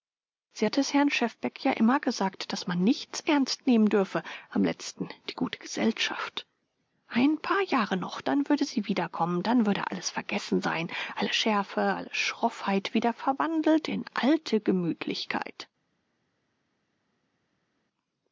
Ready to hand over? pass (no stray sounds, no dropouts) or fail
pass